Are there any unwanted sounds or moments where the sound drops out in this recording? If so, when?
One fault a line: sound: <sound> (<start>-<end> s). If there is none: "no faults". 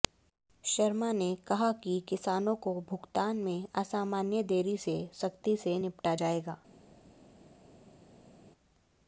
no faults